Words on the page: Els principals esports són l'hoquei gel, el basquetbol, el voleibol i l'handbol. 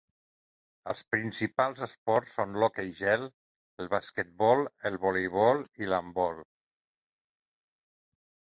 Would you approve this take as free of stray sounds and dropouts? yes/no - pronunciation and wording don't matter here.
yes